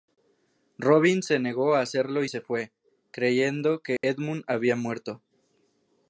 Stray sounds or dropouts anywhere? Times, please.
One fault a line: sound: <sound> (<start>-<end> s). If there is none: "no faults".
sound: dropout (4.0-4.0 s)